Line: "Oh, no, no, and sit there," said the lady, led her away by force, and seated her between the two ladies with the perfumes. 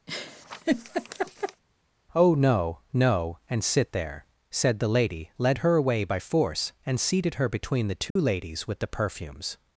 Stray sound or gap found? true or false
true